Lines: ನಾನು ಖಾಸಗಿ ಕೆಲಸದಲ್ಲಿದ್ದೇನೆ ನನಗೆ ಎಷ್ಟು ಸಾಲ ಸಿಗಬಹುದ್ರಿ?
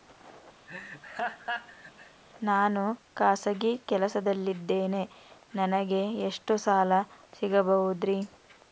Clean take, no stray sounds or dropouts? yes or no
no